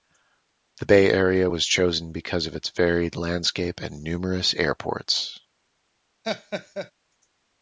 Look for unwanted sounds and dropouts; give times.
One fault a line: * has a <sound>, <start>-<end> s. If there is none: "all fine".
* has a laugh, 6.2-6.9 s